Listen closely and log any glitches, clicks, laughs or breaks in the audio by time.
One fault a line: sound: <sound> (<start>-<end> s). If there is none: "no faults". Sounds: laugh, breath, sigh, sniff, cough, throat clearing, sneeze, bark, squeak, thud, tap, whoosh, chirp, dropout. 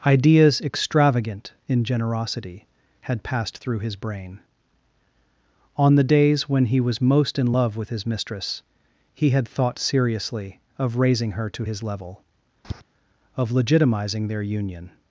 sound: tap (12.6-12.8 s)